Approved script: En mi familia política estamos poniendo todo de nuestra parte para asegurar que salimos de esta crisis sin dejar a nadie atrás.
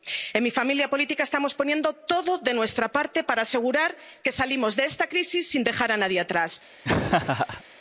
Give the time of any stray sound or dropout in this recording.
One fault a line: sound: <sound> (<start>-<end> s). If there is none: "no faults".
sound: laugh (6.8-7.6 s)